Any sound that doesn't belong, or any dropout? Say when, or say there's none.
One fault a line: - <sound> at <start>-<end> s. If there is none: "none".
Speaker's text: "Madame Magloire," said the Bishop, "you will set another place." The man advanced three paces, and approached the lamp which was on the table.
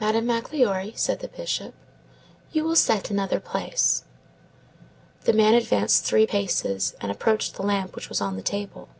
none